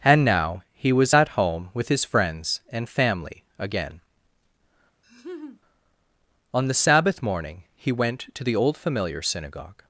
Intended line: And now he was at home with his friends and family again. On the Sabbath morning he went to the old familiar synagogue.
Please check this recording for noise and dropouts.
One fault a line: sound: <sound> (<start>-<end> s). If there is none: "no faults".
sound: laugh (5.0-5.6 s)